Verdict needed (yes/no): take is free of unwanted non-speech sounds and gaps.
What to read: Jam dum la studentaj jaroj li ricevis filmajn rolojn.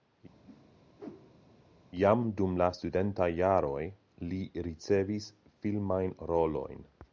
no